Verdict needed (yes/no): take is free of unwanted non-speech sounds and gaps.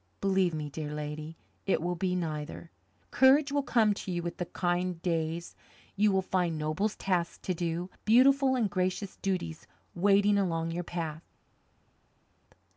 yes